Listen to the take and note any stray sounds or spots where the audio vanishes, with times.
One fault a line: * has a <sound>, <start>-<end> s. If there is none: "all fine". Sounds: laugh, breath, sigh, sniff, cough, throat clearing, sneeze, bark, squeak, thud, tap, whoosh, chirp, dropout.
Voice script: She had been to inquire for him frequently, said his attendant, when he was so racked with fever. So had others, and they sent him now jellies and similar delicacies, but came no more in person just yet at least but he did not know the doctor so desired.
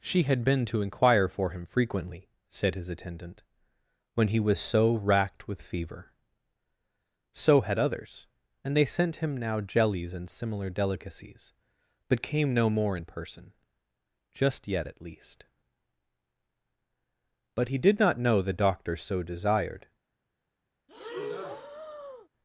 * has a breath, 20.9-22.3 s